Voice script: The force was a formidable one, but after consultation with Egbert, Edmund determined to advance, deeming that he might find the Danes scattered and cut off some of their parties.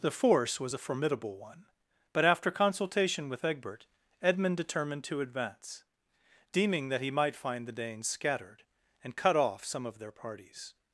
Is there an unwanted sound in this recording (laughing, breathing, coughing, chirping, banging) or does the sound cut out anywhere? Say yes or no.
no